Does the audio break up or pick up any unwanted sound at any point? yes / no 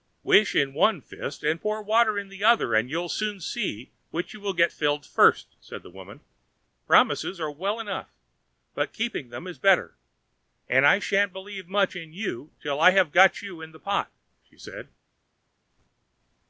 no